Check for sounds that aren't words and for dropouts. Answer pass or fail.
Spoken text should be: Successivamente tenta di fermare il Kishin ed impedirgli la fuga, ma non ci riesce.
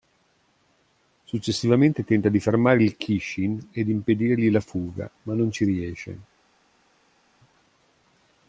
pass